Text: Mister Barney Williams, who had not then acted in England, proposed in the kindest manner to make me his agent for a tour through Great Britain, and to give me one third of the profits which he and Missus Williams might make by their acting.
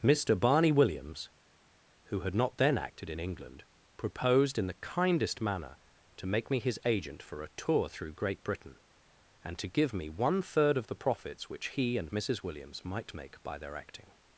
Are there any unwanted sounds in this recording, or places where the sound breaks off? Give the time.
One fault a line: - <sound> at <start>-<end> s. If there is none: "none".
none